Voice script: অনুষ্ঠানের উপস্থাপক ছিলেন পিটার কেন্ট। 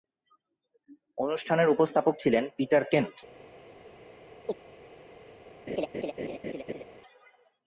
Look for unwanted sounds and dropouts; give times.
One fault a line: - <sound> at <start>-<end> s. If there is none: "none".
- chirp at 4.5-4.6 s
- laugh at 5.7-6.8 s